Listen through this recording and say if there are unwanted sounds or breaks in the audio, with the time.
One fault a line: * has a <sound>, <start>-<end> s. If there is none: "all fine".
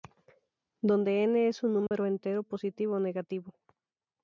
* has a dropout, 1.9-1.9 s